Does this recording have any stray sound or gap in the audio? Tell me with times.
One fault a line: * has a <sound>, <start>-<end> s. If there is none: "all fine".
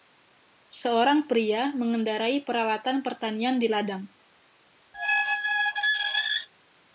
* has a squeak, 4.9-6.5 s